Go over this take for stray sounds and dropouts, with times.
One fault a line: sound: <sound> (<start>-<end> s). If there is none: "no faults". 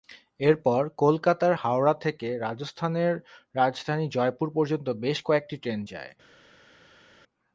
no faults